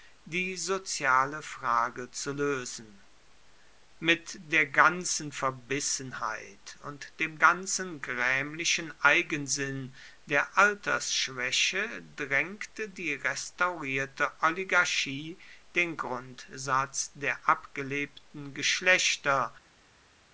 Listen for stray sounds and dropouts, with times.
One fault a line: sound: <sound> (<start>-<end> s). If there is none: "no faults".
no faults